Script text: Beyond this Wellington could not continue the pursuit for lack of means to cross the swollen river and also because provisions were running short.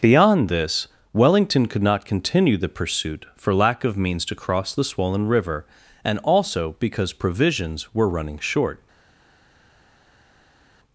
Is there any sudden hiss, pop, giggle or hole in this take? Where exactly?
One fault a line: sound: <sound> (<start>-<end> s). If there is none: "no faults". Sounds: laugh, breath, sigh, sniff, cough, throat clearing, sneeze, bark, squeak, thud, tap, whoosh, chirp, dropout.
no faults